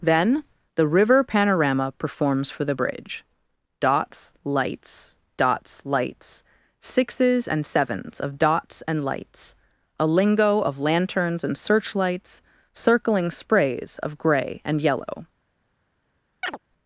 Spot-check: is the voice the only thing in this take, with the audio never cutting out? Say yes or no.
no